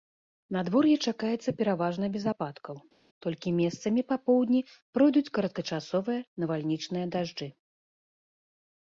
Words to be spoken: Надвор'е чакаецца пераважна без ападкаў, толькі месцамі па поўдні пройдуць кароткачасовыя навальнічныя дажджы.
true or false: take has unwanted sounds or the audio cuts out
false